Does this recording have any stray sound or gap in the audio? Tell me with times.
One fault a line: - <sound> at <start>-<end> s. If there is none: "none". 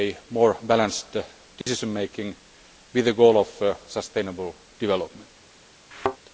- dropout at 1.6-1.7 s
- thud at 5.9-6.2 s